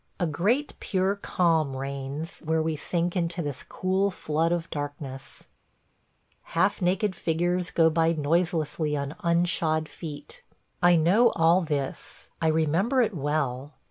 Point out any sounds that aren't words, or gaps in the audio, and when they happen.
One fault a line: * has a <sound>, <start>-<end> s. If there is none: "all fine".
all fine